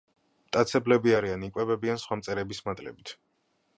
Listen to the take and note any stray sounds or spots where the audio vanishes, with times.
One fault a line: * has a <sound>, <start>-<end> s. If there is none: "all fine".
all fine